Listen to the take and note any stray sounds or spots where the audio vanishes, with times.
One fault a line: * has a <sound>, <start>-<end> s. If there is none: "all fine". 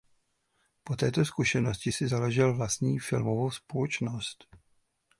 all fine